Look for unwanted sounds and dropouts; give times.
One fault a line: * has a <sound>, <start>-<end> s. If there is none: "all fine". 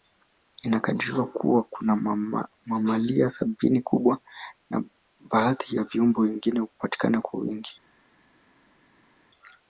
all fine